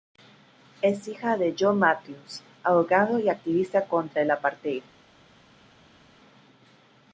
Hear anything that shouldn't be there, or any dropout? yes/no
no